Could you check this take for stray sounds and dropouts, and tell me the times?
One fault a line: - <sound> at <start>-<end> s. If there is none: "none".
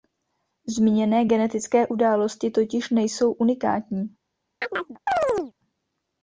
- chirp at 4.6-5.5 s